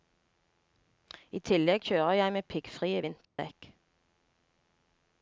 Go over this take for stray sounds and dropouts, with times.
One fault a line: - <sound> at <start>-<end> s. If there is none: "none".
- dropout at 3.2-3.4 s